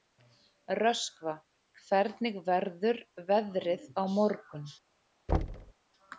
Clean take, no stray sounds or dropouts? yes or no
no